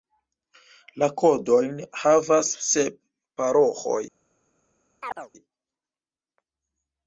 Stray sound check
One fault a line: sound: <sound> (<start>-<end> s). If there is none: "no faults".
sound: chirp (5.0-5.3 s)